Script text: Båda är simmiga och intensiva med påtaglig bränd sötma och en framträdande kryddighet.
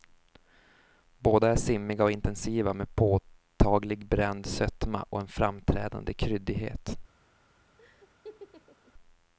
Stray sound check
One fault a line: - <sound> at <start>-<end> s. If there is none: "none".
- laugh at 7.8-8.9 s